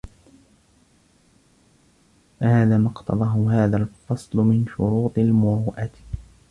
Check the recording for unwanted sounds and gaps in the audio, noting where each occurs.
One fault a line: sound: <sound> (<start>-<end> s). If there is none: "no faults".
no faults